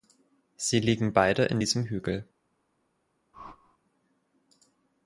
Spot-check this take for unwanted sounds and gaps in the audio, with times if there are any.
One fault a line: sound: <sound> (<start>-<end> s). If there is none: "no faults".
sound: whoosh (3.3-3.8 s)